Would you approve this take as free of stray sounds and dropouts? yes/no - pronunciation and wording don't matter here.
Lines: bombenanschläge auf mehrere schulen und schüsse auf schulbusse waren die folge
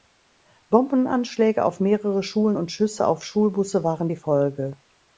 yes